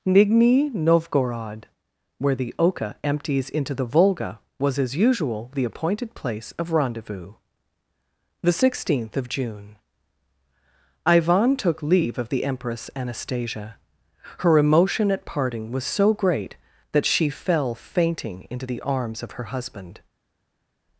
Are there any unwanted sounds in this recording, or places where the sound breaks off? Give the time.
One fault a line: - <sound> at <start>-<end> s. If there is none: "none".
none